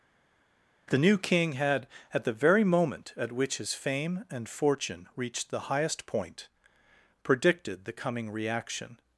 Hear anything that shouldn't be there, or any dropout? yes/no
no